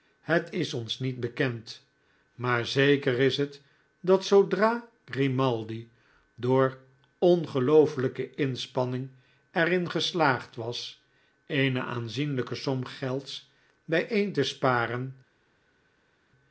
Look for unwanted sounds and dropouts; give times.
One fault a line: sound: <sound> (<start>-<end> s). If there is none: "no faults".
no faults